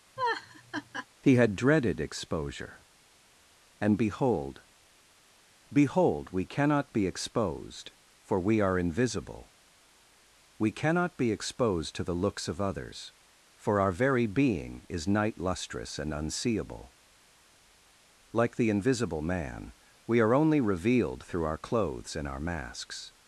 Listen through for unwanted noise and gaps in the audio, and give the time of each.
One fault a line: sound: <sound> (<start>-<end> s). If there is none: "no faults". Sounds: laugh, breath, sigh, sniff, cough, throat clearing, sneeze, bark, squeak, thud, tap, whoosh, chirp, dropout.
sound: laugh (0.2-1.1 s)